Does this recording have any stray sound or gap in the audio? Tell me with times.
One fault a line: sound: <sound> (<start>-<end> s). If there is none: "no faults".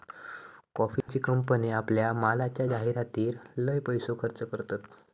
sound: dropout (1.0-1.1 s)